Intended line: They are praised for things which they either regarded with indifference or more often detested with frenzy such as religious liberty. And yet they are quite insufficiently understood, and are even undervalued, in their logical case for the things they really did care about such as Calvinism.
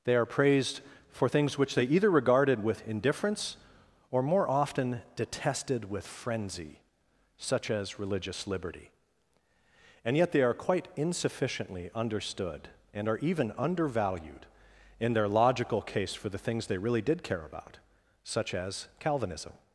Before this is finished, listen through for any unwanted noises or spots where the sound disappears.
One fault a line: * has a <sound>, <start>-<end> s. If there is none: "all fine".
all fine